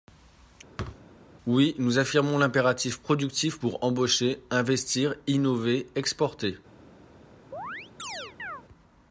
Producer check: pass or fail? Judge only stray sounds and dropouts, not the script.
fail